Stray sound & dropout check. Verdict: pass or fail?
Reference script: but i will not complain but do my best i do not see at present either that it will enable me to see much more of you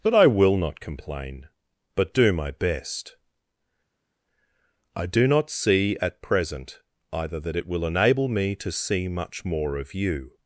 pass